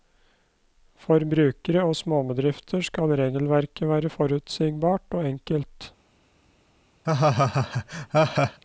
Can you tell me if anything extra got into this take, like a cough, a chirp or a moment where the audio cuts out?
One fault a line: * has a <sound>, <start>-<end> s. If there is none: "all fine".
* has a laugh, 7.0-8.6 s